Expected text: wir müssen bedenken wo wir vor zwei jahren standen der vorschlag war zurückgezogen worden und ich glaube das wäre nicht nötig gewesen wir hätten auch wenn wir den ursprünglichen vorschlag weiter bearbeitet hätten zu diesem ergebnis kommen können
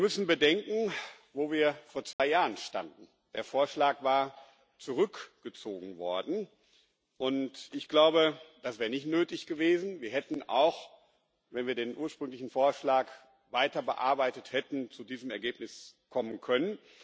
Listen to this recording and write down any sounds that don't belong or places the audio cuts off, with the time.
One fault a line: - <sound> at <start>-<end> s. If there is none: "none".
- dropout at 2.1-2.2 s